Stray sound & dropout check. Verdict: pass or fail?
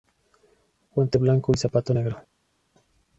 pass